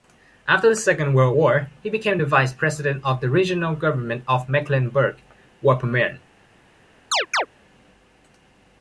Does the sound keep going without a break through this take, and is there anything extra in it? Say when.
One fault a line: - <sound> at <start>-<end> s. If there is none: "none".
- chirp at 7.1-7.5 s